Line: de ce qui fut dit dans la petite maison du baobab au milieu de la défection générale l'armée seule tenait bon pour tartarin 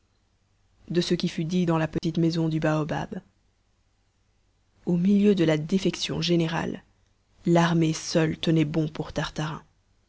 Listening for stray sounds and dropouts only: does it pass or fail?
fail